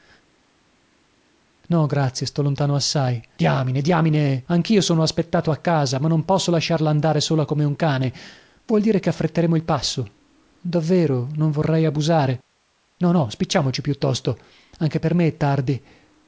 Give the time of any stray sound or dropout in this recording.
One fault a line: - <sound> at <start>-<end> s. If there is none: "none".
none